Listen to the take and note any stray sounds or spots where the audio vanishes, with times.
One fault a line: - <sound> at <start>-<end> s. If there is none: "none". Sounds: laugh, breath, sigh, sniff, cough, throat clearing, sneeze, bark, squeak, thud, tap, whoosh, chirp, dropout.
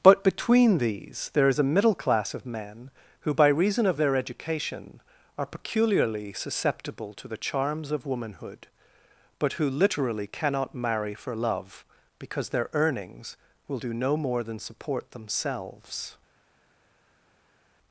none